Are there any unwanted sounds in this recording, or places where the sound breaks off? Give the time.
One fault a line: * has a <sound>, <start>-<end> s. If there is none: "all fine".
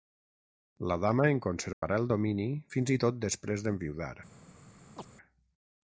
* has a dropout, 1.7-1.8 s
* has a chirp, 5.0-5.1 s